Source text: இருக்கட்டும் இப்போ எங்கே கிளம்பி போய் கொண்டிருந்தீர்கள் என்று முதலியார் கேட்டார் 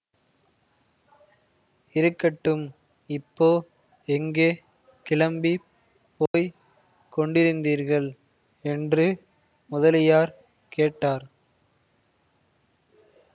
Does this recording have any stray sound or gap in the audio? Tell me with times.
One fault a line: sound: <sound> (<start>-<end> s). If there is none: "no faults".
sound: dropout (6.3-6.3 s)